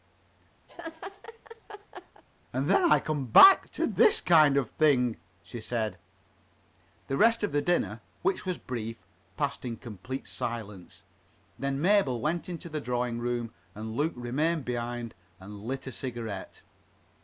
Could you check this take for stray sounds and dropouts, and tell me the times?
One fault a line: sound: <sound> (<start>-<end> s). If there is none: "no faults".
sound: laugh (0.7-2.2 s)